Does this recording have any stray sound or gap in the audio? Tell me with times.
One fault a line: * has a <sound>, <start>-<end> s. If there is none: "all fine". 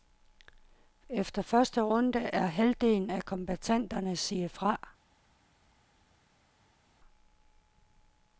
all fine